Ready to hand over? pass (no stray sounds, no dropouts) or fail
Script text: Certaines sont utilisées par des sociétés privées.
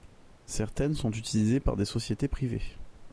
pass